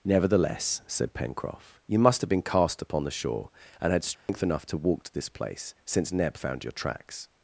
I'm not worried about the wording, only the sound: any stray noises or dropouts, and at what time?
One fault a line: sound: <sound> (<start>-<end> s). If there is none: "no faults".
sound: dropout (4.1-4.3 s)